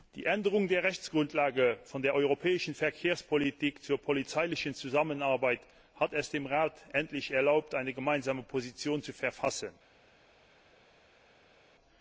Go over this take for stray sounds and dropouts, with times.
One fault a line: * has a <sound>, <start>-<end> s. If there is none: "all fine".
all fine